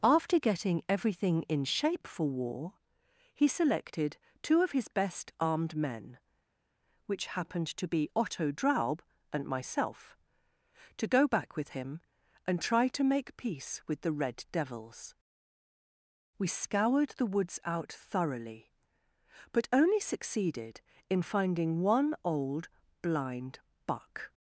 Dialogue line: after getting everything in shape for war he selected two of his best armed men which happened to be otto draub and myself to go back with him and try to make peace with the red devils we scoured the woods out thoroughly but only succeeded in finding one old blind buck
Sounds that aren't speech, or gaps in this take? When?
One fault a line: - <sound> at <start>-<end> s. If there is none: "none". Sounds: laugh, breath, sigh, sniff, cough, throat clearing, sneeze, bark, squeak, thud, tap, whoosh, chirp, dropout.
none